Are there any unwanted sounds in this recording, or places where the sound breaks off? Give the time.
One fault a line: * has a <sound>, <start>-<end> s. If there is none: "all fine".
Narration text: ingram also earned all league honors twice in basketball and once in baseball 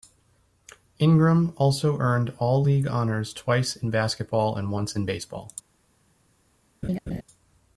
* has a laugh, 6.8-7.2 s